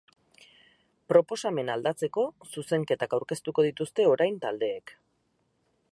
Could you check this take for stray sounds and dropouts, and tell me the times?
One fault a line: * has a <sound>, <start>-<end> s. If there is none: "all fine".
all fine